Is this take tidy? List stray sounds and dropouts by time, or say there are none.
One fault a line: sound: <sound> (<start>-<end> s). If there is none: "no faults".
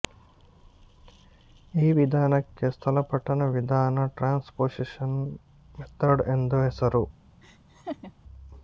sound: laugh (7.4-8.1 s)